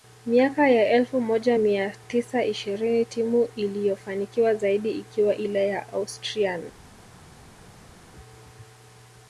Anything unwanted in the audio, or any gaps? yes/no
no